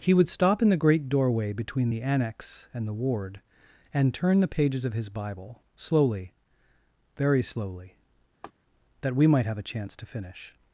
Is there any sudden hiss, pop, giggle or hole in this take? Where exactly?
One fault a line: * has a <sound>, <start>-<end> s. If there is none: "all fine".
* has a laugh, 8.4-8.5 s